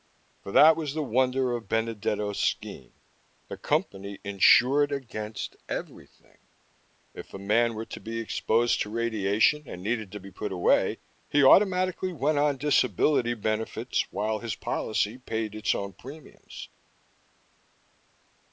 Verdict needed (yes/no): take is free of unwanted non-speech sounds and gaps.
yes